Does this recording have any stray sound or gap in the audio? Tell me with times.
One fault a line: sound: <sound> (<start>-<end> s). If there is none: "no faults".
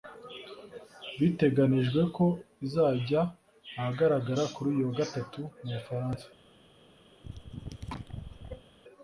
sound: cough (7.1-8.7 s)